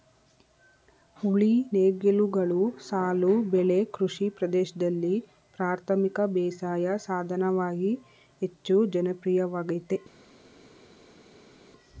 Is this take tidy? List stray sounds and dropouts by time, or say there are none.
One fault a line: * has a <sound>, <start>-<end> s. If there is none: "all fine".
all fine